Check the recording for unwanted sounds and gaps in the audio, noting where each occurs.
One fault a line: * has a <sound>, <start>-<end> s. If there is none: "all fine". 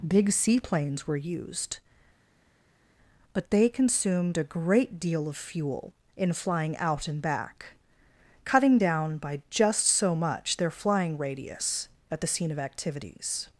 all fine